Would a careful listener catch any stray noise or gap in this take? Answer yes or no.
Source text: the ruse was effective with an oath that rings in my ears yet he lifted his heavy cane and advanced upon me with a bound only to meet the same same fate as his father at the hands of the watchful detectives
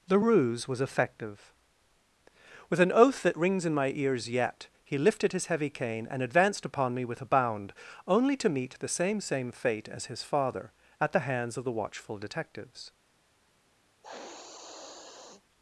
yes